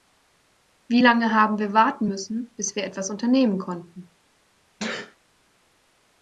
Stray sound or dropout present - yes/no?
yes